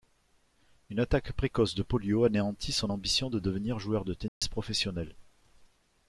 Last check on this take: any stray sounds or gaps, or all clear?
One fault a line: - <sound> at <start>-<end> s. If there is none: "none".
- dropout at 4.3-4.4 s